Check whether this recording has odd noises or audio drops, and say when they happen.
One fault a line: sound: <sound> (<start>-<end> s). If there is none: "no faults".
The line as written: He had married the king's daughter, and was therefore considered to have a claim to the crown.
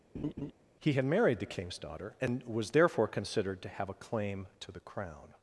sound: laugh (0.1-0.5 s)